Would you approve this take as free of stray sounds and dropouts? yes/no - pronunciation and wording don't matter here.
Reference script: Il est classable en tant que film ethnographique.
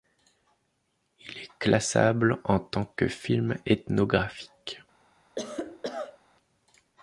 no